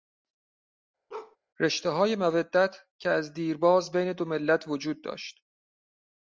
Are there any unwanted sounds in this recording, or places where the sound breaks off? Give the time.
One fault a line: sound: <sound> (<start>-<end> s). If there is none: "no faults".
sound: bark (1.1-1.4 s)